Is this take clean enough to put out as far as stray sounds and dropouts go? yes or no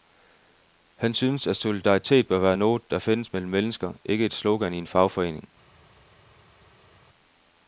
yes